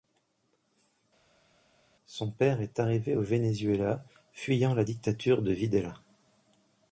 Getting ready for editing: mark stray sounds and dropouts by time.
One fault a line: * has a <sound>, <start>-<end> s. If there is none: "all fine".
all fine